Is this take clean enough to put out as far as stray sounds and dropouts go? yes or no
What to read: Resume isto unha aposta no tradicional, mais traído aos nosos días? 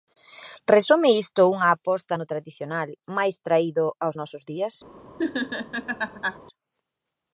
no